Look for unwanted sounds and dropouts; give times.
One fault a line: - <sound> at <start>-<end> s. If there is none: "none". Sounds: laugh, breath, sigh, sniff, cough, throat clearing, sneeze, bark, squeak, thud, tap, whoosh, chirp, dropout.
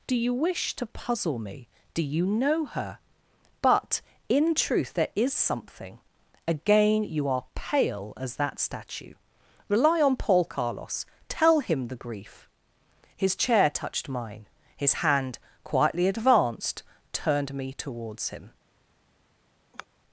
- sigh at 19.7-19.9 s